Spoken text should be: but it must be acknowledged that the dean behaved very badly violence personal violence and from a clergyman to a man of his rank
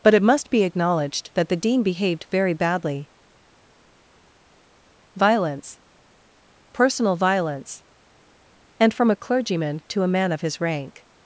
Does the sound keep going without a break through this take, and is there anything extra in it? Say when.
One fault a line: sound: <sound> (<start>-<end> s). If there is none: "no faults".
no faults